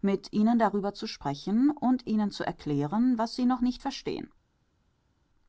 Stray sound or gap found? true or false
false